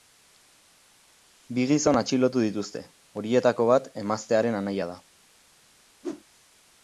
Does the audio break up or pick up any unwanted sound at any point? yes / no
yes